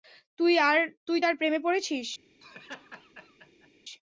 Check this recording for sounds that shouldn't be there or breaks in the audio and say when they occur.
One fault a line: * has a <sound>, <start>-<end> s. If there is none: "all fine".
* has a laugh, 2.4-3.7 s